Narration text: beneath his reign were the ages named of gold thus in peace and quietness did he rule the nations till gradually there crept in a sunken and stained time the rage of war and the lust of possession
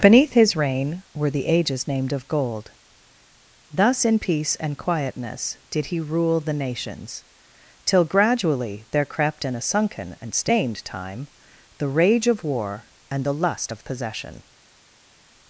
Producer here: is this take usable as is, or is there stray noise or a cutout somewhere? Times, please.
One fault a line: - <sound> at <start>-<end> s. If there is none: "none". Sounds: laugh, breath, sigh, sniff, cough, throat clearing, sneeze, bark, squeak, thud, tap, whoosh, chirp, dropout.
none